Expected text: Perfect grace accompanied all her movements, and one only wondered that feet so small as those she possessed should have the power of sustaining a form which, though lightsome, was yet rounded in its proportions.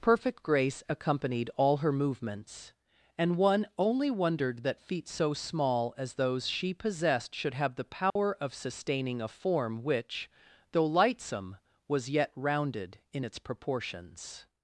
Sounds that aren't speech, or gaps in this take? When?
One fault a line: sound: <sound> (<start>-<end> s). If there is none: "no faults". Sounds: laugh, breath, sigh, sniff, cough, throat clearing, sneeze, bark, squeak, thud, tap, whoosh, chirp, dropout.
sound: dropout (8.1-8.2 s)